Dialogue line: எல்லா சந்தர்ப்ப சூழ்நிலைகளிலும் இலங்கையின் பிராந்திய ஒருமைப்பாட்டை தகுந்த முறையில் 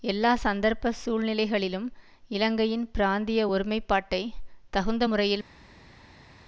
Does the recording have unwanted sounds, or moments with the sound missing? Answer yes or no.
no